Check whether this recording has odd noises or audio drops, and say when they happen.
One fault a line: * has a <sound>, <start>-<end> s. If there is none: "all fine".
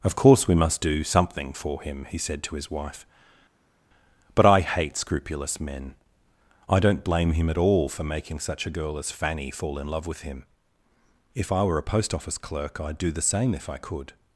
all fine